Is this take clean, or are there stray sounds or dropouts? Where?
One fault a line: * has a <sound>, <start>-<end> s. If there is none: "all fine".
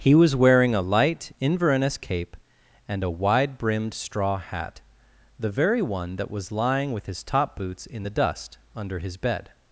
all fine